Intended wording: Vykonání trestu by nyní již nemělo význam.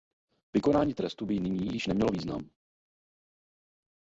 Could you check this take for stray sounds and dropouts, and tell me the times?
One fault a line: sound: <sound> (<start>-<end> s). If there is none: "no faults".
no faults